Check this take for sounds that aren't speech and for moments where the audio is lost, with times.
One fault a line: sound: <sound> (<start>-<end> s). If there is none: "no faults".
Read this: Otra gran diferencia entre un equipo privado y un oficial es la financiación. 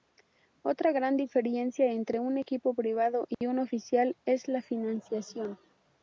sound: dropout (3.3-3.4 s)